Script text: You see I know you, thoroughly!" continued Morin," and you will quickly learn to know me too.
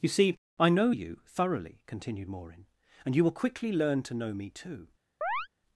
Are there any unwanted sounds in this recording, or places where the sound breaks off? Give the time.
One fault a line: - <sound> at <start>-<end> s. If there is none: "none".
- chirp at 5.2-5.5 s